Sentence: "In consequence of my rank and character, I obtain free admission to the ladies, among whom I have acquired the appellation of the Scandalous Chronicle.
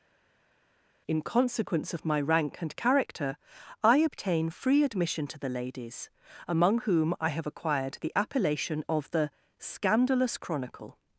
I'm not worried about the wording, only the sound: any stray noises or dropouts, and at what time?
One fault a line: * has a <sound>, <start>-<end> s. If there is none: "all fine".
all fine